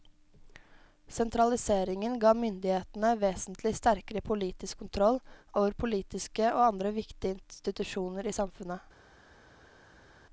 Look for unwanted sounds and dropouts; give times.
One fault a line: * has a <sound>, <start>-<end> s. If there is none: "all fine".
all fine